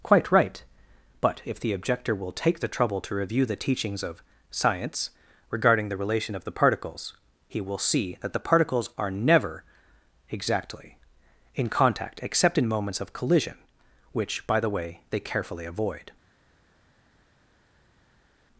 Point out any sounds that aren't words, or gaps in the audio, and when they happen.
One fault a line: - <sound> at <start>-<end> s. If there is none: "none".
none